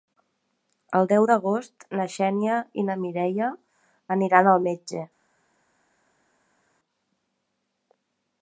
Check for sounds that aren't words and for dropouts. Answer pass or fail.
pass